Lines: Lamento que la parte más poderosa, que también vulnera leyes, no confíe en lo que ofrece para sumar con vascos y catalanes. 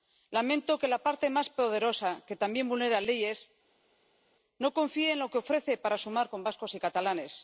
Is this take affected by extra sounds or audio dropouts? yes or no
no